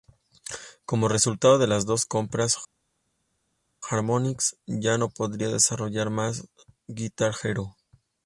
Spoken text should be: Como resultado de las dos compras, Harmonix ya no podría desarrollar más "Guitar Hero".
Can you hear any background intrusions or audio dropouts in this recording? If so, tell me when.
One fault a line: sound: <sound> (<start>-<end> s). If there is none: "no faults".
no faults